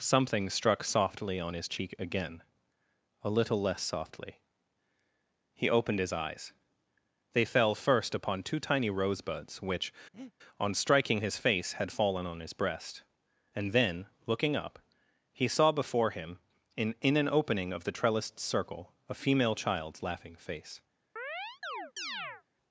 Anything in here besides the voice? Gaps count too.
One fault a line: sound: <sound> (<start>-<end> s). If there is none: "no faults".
sound: breath (10.1-10.3 s)
sound: chirp (21.2-22.4 s)